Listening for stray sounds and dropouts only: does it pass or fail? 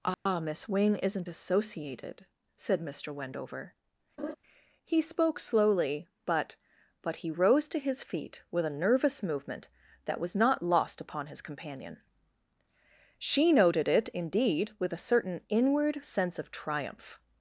fail